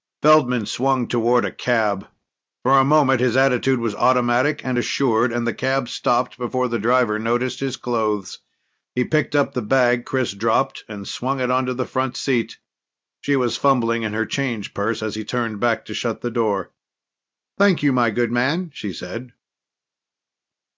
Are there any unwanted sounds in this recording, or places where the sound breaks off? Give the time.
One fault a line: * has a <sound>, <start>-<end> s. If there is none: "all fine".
all fine